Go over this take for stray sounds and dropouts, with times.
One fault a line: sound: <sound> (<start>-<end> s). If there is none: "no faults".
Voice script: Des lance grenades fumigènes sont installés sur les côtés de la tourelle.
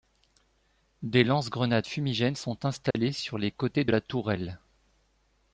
sound: dropout (2.9-3.0 s)